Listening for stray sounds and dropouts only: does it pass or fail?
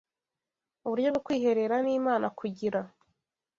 pass